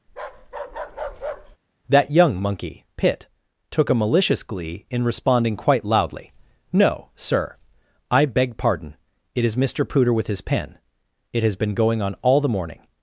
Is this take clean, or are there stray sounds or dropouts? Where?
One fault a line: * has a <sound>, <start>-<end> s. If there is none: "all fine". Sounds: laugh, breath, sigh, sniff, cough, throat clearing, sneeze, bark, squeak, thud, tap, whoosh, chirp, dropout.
* has a bark, 0.1-1.6 s